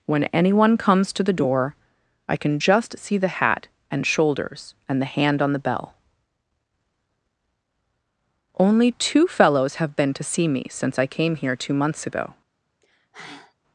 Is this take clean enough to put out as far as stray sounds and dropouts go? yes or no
no